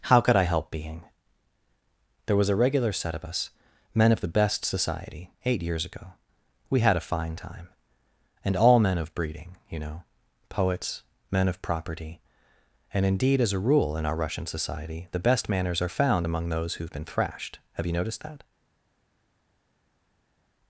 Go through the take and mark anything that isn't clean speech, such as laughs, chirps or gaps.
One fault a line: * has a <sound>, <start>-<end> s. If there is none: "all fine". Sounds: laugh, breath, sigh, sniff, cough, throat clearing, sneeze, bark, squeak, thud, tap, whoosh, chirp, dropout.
all fine